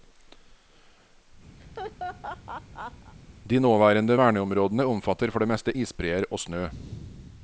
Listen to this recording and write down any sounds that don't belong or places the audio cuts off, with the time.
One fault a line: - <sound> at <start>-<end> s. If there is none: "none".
- laugh at 1.6-3.1 s